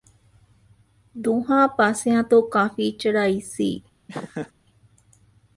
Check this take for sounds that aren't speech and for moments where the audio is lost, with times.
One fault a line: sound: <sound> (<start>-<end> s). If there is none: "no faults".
sound: laugh (4.1-4.5 s)